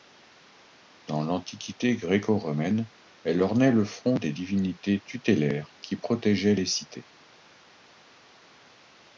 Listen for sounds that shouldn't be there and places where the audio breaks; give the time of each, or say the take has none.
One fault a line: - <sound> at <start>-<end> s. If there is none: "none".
none